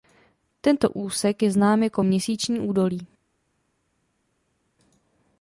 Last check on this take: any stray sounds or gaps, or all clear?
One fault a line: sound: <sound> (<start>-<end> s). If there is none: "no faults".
no faults